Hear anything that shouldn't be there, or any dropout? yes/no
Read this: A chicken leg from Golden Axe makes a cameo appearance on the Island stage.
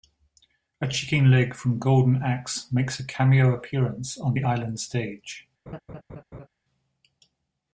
yes